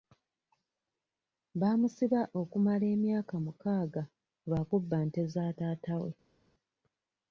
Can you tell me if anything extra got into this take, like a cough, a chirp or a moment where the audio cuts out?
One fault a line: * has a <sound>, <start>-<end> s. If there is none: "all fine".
all fine